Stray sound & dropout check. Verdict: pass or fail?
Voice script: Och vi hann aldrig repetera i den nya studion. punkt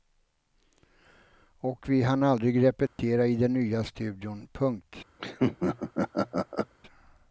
fail